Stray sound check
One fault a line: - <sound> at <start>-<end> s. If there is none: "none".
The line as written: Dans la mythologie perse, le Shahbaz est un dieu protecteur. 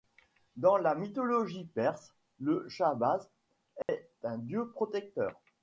- dropout at 3.8-3.9 s